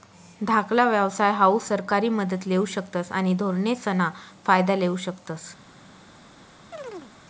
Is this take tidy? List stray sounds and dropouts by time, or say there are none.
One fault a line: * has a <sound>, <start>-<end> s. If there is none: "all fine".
* has a chirp, 6.7-7.1 s